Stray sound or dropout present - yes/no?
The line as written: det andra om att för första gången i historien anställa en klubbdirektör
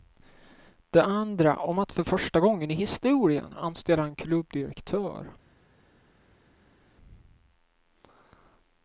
no